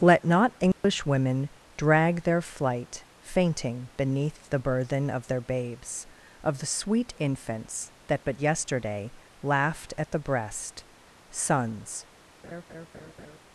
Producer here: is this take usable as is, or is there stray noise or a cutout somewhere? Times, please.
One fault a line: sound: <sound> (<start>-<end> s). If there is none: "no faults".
sound: dropout (0.7-0.8 s)
sound: laugh (12.4-13.4 s)